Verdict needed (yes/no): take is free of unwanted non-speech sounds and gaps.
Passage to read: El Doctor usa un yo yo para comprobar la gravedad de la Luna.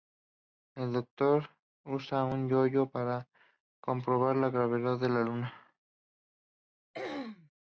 no